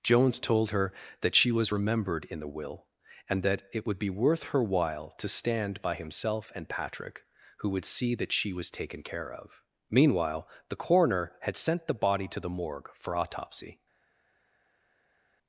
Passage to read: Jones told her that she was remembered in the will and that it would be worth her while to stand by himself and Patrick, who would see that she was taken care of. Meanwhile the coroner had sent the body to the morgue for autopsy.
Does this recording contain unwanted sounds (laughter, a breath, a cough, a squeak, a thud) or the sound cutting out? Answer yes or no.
no